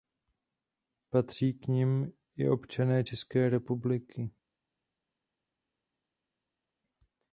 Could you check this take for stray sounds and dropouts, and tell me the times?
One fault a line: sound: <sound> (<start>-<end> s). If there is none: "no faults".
no faults